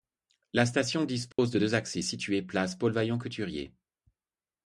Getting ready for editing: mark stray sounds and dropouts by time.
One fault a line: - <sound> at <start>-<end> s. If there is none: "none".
- dropout at 1.3-1.4 s